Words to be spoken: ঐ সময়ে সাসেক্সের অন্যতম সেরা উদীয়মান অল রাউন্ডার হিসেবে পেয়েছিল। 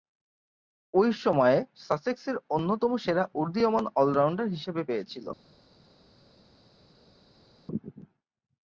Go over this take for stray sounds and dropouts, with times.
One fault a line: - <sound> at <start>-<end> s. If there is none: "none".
none